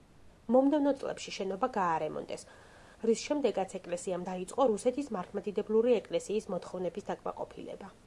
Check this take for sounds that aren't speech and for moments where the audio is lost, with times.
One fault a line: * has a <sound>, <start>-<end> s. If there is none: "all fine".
all fine